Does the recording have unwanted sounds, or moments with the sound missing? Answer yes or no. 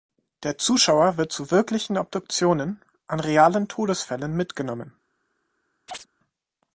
yes